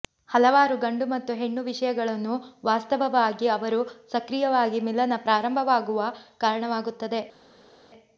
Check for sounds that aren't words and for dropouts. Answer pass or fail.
pass